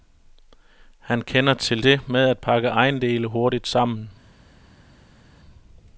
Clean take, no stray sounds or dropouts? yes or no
yes